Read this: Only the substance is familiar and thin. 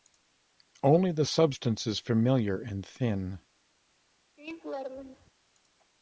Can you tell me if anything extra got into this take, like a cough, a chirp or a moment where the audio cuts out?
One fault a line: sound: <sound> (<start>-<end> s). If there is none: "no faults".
sound: laugh (4.4-5.3 s)